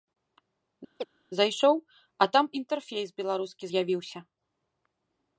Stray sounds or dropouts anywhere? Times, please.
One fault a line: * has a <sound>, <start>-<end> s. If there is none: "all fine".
* has a chirp, 1.0-1.1 s